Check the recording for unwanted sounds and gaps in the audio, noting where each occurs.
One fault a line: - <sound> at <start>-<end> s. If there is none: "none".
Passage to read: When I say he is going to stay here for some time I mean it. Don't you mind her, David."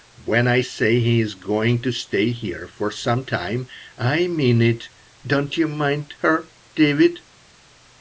none